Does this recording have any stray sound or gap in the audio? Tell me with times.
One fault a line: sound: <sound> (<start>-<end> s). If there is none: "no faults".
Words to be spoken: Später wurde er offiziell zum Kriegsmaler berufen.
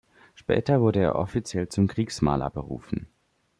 no faults